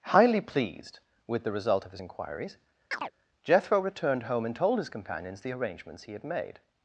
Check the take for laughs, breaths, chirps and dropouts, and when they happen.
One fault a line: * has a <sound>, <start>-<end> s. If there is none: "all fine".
* has a chirp, 2.9-3.1 s